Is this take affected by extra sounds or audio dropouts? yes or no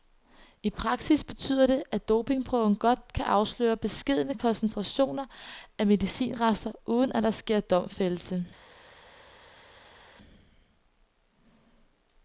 no